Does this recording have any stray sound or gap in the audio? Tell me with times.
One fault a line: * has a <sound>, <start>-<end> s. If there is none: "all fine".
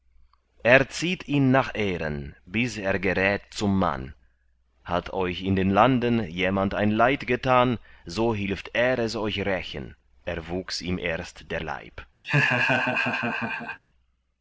* has a laugh, 12.2-13.8 s